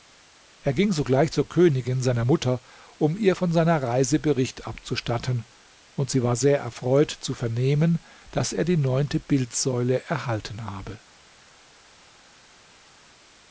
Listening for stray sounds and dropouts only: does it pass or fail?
pass